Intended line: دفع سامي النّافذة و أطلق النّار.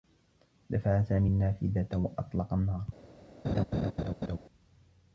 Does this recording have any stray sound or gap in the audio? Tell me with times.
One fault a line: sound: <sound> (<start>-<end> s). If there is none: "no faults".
sound: laugh (3.4-4.4 s)